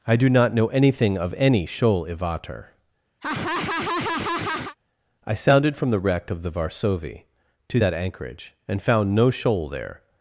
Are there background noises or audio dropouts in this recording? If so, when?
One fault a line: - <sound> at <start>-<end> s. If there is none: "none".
- laugh at 3.2-4.8 s